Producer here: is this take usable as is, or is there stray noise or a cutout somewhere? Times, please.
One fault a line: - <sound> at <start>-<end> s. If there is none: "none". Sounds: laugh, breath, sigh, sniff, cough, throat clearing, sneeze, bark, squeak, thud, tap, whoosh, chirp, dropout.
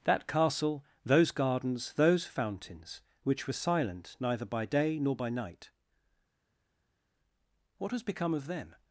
none